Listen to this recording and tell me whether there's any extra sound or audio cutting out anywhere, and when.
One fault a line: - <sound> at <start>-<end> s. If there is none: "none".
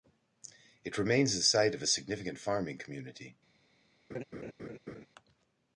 - laugh at 4.1-5.1 s